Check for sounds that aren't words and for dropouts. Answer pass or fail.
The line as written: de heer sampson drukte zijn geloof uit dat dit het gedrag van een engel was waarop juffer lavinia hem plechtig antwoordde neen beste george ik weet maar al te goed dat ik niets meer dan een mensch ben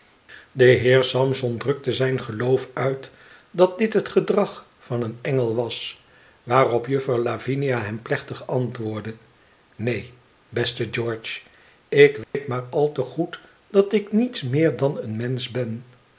fail